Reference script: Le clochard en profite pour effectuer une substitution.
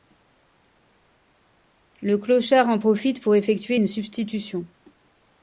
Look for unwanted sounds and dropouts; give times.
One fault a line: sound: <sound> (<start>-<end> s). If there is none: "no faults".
no faults